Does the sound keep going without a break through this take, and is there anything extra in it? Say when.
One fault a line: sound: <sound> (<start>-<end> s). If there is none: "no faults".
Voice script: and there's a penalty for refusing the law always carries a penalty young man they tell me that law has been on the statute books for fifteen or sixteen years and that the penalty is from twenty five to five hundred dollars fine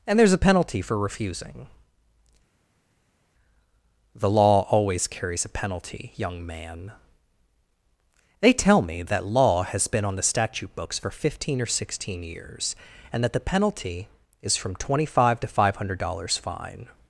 no faults